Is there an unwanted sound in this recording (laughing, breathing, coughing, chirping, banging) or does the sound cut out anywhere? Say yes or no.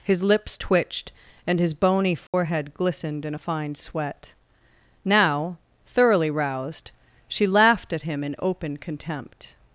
yes